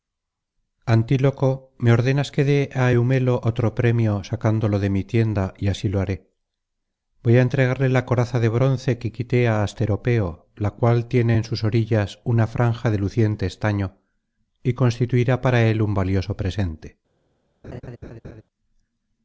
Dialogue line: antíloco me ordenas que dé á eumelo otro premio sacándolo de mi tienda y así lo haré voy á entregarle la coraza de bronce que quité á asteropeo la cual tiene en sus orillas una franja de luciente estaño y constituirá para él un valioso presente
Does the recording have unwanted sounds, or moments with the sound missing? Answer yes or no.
yes